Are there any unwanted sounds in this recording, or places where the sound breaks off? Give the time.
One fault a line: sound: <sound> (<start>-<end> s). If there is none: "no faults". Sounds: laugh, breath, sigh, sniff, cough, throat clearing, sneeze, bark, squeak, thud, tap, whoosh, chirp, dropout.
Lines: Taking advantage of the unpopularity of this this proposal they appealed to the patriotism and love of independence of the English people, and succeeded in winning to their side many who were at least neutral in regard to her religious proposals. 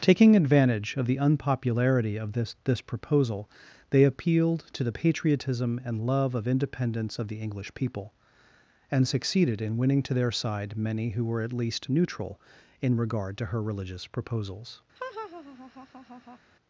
sound: laugh (15.0-16.4 s)